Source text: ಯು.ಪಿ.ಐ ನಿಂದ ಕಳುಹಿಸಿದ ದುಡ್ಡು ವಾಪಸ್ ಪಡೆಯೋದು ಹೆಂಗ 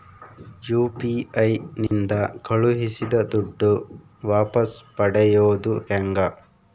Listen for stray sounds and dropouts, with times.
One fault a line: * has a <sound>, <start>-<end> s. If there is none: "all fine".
* has a dropout, 1.9-1.9 s